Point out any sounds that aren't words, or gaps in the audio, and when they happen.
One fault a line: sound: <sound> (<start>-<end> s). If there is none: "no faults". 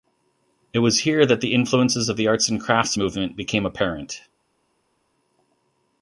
no faults